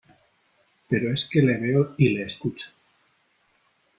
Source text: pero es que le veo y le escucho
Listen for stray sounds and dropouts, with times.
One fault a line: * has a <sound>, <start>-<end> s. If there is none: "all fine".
all fine